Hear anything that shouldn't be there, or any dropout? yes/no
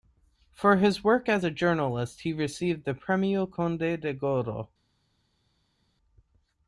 no